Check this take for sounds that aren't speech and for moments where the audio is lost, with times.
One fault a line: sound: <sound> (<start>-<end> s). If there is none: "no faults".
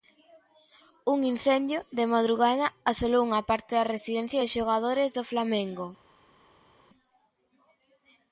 no faults